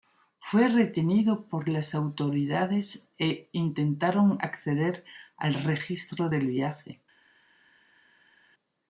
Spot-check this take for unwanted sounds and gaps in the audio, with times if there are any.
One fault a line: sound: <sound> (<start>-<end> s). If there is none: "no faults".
no faults